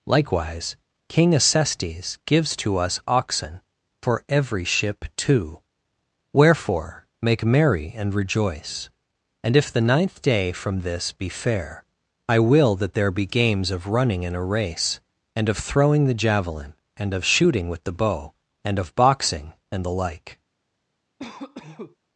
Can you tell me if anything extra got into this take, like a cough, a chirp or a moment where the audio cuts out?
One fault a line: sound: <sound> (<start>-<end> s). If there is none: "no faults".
sound: cough (21.2-22.0 s)